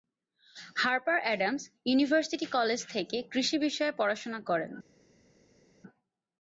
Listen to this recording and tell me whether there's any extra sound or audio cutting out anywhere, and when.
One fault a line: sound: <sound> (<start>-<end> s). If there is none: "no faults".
no faults